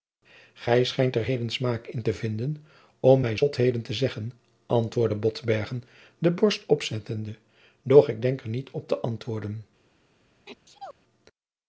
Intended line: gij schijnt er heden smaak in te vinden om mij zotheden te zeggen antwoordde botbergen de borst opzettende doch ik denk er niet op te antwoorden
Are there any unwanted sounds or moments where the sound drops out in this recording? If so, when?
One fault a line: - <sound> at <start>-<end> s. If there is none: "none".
- sneeze at 10.5-10.9 s